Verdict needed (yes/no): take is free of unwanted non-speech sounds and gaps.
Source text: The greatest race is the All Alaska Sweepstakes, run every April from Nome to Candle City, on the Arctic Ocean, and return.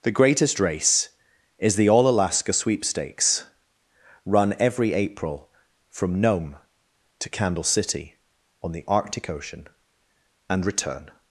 yes